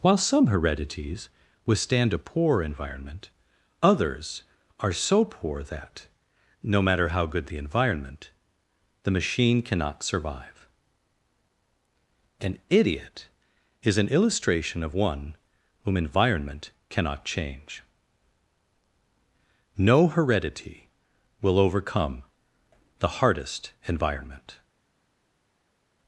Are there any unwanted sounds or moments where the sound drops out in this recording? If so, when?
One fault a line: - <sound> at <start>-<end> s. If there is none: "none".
none